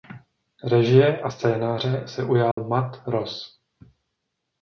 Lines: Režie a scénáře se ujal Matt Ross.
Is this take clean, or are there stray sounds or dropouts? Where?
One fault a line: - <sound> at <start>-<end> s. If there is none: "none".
- dropout at 2.5-2.6 s